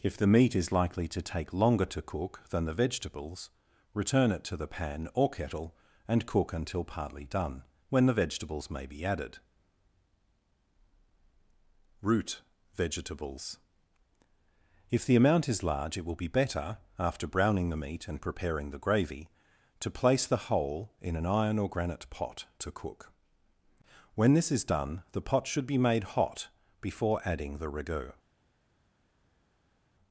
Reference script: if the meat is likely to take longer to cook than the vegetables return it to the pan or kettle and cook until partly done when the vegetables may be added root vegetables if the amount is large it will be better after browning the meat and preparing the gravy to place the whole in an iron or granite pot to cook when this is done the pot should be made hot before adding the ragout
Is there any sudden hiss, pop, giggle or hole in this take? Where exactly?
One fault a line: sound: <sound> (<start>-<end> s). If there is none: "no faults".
no faults